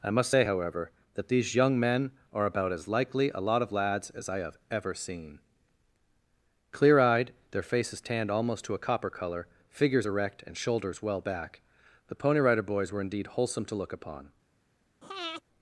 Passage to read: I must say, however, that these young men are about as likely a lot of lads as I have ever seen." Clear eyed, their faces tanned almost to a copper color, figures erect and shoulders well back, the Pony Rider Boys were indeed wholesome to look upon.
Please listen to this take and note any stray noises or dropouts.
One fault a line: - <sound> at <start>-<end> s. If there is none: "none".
- breath at 15.0-15.4 s